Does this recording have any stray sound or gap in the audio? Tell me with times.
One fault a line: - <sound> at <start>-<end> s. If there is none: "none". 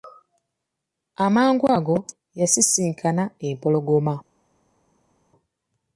none